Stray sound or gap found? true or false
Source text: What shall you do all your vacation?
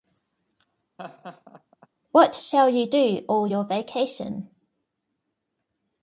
true